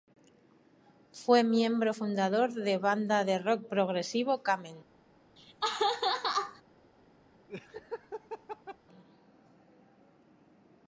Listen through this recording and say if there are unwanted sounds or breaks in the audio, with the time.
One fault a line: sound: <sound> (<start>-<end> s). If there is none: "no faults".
sound: laugh (5.4-6.6 s)
sound: laugh (7.5-8.8 s)